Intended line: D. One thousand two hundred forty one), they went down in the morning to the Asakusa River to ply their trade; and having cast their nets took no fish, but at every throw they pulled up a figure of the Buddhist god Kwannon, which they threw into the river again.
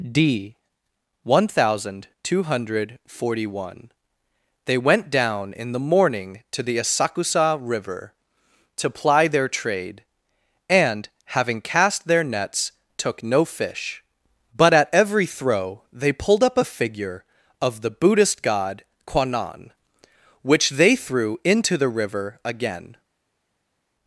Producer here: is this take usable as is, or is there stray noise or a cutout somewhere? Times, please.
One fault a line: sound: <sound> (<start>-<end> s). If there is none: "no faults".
no faults